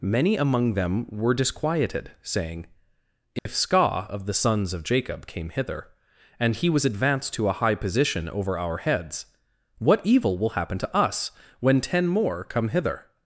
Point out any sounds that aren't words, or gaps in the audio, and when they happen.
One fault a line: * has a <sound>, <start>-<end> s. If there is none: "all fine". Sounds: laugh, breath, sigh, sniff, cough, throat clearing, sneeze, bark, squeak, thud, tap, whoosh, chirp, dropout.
* has a dropout, 3.4-3.5 s